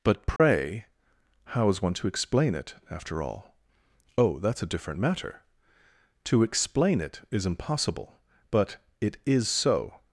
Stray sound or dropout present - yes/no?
yes